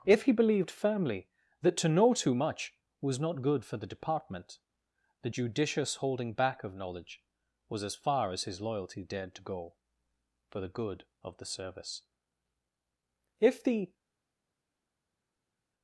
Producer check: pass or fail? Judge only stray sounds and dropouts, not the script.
pass